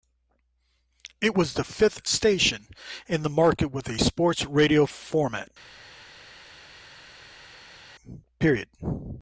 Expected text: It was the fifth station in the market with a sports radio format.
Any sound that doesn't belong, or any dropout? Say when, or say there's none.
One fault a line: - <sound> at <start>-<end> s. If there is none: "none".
none